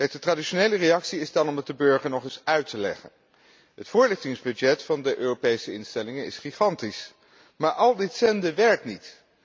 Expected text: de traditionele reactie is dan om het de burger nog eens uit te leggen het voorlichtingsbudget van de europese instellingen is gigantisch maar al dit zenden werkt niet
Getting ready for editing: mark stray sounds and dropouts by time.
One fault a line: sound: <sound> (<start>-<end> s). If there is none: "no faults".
no faults